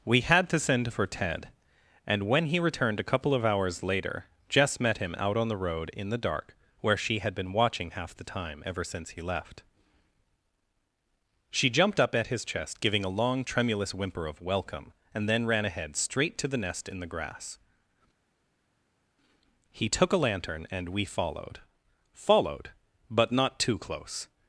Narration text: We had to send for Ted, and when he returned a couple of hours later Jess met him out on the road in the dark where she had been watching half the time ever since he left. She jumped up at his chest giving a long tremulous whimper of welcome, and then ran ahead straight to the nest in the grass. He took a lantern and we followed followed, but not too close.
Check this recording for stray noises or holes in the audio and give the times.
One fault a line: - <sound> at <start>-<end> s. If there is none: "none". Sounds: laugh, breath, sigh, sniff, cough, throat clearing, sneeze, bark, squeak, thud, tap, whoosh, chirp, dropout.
none